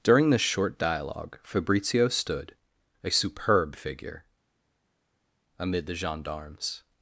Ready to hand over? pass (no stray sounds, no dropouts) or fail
pass